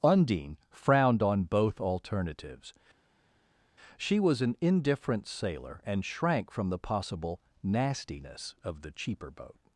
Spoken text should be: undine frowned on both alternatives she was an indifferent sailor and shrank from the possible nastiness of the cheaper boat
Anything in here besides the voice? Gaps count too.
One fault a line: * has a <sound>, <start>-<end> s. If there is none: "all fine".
all fine